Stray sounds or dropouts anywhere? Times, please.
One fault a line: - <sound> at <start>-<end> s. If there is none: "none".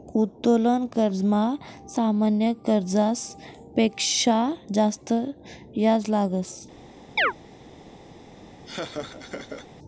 - chirp at 7.2-7.3 s
- laugh at 8.7-9.7 s